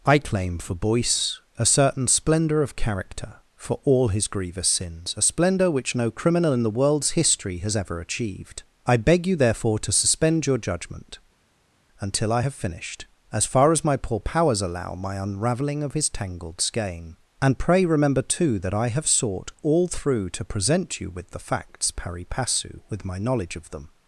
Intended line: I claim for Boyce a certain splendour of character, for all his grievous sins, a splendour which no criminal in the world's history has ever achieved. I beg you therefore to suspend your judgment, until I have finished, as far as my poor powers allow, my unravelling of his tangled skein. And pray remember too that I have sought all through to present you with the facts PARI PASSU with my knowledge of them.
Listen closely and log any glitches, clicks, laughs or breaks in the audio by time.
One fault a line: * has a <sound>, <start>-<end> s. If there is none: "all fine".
all fine